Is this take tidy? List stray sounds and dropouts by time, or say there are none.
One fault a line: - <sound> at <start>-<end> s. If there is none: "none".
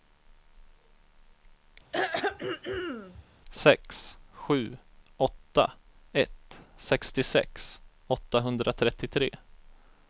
- throat clearing at 1.9-3.2 s